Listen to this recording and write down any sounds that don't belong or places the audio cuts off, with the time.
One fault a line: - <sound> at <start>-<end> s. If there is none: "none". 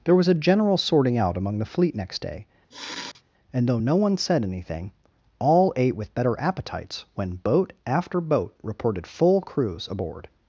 - sniff at 2.7-3.2 s